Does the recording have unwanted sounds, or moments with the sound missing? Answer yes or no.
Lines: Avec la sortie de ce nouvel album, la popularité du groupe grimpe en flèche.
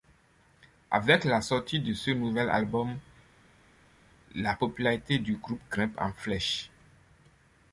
no